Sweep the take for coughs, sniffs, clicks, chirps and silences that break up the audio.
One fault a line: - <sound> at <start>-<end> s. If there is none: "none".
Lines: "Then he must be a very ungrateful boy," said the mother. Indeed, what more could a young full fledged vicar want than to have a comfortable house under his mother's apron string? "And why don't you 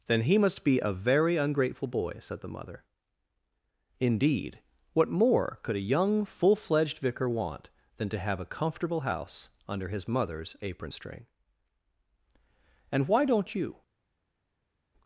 none